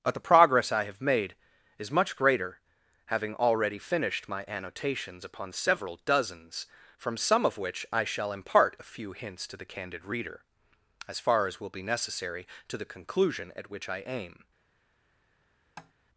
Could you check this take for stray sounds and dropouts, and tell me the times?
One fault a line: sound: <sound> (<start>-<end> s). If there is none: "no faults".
sound: tap (15.8-15.9 s)